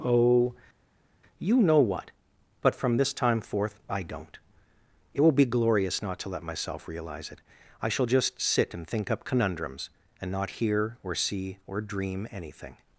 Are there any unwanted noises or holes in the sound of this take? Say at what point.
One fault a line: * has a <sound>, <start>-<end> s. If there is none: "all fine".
all fine